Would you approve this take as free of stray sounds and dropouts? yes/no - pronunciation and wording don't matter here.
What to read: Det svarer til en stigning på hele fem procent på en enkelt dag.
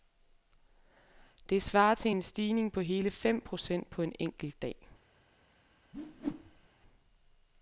no